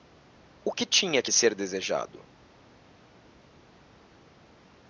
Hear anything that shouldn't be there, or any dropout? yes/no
no